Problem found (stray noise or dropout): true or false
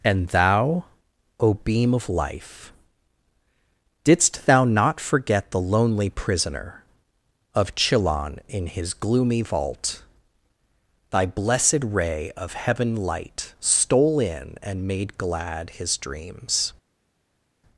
false